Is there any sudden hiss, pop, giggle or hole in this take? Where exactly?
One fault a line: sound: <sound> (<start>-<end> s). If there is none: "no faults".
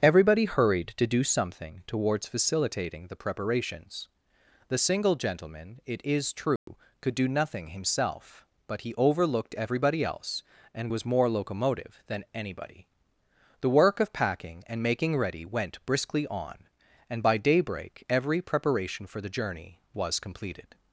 sound: dropout (6.6-6.7 s)